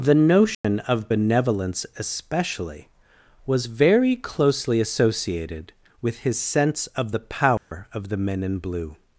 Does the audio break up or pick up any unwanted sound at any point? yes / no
yes